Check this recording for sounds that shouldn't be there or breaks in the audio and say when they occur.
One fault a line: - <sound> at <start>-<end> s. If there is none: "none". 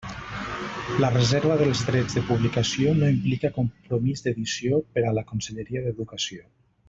none